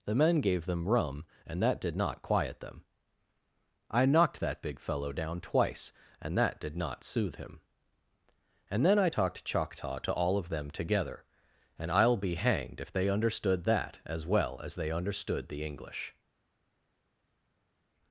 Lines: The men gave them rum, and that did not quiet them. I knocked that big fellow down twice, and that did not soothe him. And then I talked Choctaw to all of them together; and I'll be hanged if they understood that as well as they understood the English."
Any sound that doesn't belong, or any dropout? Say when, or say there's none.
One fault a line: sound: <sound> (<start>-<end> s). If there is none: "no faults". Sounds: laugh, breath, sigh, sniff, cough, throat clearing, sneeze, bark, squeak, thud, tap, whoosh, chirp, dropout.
no faults